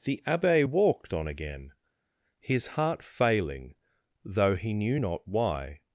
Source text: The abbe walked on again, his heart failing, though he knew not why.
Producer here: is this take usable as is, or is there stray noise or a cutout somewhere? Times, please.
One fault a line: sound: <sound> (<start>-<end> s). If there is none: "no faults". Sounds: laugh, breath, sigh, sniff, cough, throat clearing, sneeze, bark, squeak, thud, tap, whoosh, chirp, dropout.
no faults